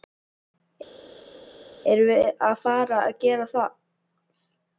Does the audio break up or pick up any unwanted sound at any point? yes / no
no